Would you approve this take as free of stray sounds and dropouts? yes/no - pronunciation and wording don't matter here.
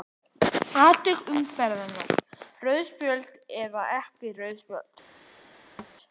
no